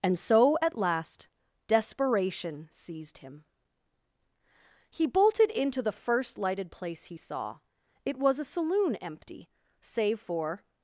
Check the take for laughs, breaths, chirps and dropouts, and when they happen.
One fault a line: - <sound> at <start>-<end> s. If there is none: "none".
none